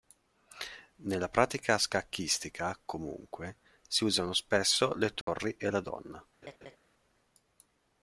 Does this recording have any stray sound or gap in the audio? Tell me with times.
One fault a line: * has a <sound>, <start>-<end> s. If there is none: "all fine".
* has a dropout, 5.2-5.3 s
* has a laugh, 6.4-6.8 s